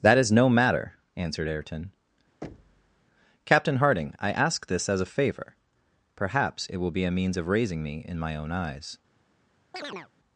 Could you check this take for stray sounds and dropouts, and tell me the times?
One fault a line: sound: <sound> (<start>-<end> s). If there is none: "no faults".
sound: thud (2.4-3.1 s)
sound: chirp (9.7-10.1 s)